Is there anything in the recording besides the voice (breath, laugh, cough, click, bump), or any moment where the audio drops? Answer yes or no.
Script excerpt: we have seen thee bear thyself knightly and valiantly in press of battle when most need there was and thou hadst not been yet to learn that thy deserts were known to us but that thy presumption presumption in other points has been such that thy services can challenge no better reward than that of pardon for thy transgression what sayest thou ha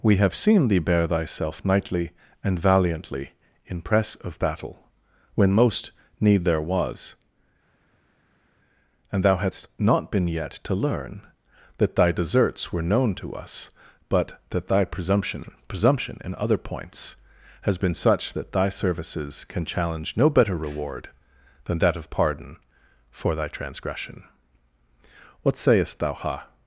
no